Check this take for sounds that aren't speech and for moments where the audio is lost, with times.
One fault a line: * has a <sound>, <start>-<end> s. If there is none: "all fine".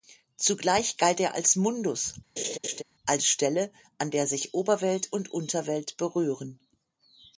* has a laugh, 2.4-2.8 s